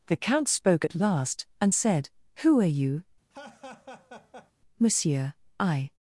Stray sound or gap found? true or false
true